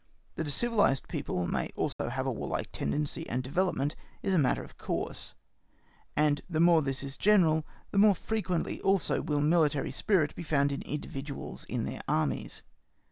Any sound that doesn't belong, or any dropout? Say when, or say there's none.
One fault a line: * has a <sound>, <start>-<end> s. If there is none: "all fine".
* has a dropout, 1.9-2.0 s